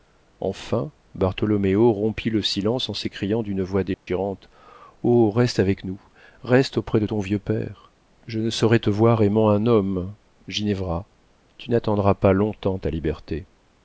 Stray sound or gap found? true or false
true